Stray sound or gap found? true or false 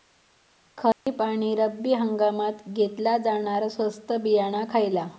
true